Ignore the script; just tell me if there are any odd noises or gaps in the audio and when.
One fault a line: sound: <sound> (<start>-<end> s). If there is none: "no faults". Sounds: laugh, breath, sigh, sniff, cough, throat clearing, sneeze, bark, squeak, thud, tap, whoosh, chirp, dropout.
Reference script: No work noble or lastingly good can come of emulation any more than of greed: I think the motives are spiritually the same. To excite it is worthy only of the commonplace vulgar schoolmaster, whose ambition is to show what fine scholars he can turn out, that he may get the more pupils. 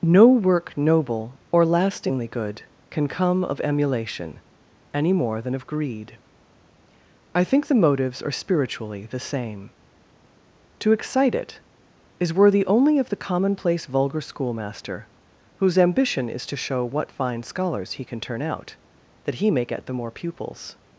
no faults